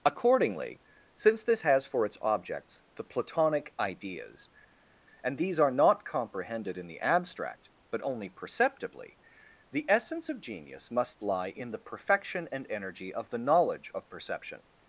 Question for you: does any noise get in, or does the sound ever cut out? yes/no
no